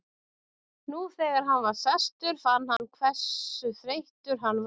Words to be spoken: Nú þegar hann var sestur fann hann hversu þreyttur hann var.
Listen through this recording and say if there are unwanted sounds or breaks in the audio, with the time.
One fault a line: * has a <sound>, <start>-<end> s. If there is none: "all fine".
* has a dropout, 2.8-2.8 s